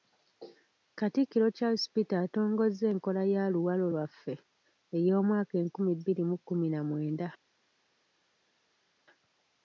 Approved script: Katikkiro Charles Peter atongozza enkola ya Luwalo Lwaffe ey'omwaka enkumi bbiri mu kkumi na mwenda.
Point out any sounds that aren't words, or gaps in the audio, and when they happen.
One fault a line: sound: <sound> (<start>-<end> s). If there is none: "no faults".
no faults